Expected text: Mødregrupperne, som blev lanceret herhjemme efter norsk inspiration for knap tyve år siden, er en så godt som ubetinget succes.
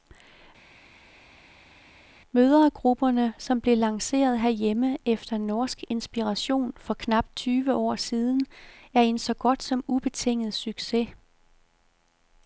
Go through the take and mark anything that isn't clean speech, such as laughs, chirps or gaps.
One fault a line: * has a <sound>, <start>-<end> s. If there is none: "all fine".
all fine